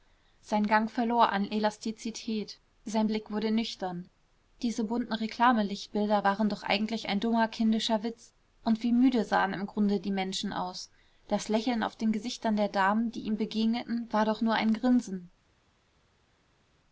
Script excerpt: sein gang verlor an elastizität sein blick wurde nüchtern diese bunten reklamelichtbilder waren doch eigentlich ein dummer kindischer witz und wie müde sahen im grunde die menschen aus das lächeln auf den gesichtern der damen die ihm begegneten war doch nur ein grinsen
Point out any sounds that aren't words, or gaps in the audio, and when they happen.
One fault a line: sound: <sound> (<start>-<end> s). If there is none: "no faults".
no faults